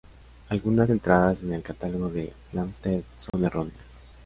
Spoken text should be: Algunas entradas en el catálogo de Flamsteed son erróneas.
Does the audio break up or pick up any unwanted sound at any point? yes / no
yes